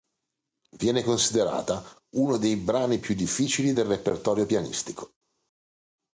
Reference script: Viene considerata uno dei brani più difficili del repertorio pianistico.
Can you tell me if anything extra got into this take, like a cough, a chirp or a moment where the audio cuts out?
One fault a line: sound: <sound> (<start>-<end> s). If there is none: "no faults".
no faults